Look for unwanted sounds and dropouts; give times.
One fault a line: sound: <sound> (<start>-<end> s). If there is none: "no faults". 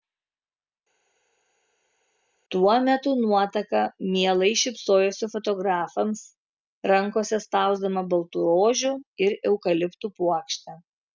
no faults